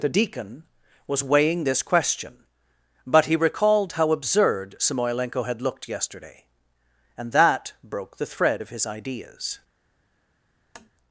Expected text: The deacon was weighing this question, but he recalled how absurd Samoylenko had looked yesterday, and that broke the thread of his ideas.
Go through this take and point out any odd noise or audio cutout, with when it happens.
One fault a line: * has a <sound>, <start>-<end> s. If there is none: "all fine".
* has a tap, 10.7-10.9 s